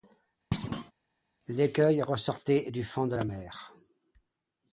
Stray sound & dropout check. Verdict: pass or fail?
fail